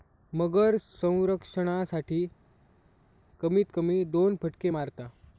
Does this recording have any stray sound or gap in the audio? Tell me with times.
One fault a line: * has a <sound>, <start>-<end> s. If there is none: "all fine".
all fine